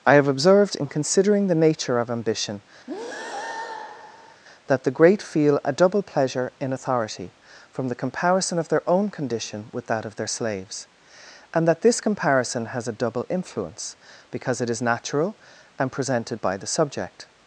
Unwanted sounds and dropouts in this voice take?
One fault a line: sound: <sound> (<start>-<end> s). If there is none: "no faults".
sound: breath (2.9-4.4 s)